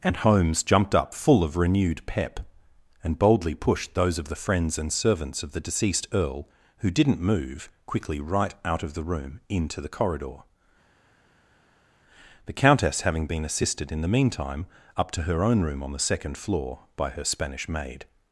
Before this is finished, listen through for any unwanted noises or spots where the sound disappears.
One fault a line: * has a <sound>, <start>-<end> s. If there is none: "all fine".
all fine